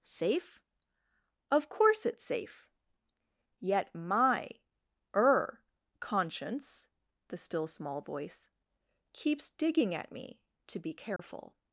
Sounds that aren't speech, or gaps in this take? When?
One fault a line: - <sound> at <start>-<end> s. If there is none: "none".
- dropout at 11.2-11.2 s